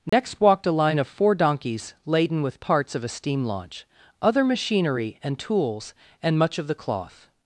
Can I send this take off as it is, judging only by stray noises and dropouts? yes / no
no